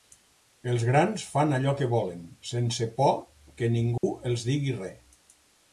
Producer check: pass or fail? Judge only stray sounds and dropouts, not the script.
fail